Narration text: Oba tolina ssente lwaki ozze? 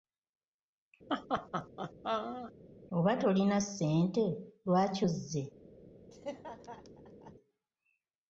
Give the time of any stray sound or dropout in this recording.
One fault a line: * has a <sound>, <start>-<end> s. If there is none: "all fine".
* has a laugh, 1.1-2.5 s
* has a laugh, 6.1-7.3 s